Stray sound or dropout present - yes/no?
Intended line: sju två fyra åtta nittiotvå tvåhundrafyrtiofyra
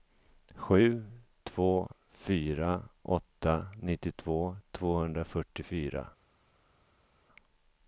no